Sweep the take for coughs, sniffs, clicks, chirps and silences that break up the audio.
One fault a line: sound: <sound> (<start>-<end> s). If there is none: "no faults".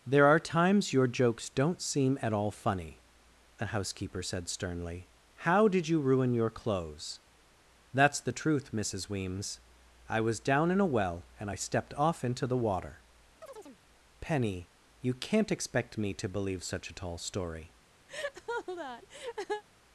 sound: chirp (13.4-13.8 s)
sound: laugh (18.1-19.6 s)